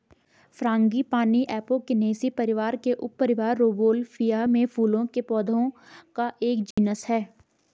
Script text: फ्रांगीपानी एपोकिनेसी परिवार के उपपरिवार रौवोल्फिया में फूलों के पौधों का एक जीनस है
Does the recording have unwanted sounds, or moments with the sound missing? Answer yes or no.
yes